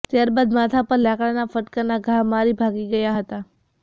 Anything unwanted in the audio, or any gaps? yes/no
no